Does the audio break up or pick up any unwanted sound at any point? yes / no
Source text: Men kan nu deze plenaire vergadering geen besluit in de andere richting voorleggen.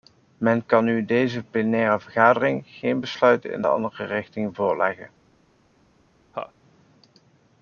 yes